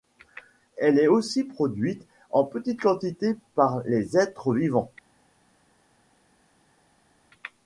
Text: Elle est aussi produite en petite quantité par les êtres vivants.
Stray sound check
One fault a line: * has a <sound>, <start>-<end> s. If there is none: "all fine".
all fine